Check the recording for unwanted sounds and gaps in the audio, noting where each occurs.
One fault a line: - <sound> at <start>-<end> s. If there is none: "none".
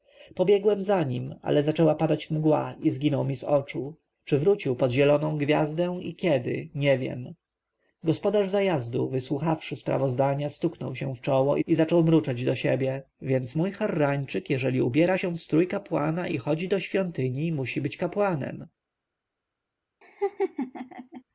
- laugh at 20.0-21.2 s